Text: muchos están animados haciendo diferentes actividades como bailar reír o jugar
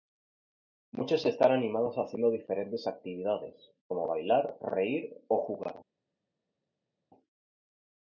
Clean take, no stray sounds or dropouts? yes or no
yes